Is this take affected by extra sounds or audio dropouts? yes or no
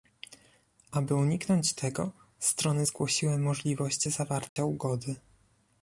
yes